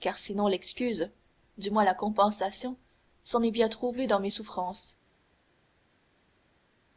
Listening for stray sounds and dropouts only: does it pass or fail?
pass